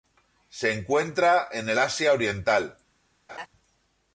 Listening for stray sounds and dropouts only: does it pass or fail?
fail